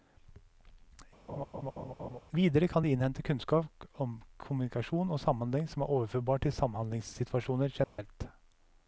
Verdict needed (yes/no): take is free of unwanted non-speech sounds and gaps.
no